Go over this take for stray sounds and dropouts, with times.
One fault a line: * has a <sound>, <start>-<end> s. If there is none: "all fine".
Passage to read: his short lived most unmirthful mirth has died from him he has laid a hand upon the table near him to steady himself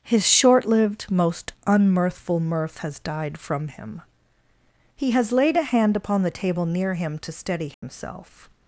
* has a dropout, 7.7-7.8 s